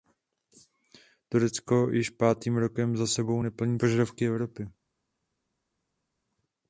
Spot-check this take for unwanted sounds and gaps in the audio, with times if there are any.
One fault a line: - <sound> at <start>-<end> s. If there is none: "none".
none